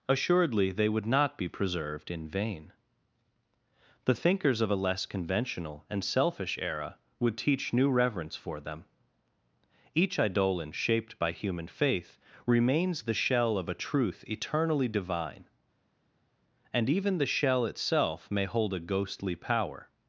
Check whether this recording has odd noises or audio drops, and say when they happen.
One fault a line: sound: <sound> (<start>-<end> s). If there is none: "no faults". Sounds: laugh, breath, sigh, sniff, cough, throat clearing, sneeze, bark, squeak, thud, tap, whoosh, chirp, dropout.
no faults